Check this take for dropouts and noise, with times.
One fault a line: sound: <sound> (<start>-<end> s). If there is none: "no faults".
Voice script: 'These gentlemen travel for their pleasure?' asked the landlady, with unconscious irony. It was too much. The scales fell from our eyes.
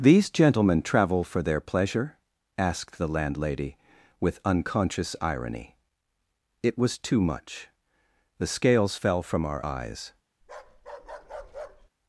sound: bark (10.4-11.9 s)